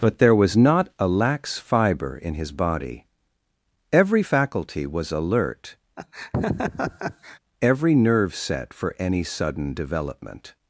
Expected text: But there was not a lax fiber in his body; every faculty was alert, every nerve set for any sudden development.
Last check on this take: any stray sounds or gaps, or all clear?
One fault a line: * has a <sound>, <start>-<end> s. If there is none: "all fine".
* has a laugh, 6.0-7.4 s